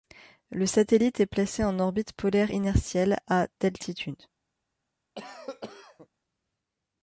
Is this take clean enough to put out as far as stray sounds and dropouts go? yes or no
no